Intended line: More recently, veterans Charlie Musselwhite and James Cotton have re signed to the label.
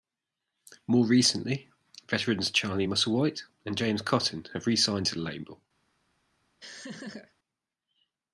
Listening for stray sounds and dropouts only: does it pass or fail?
fail